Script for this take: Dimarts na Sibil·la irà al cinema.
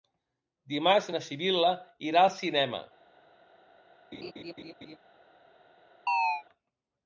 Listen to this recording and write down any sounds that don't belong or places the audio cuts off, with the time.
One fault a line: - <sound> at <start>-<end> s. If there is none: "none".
- laugh at 4.1-5.0 s
- chirp at 6.1-6.4 s